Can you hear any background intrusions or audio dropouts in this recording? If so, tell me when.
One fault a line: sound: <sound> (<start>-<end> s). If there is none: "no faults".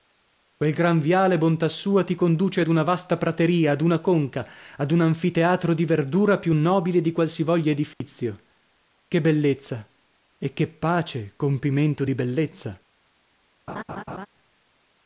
sound: dropout (7.9-8.0 s)
sound: laugh (13.7-14.3 s)